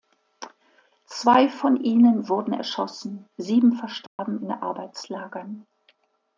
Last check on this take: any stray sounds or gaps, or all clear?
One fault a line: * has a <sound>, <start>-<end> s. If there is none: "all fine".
* has a dropout, 4.1-4.2 s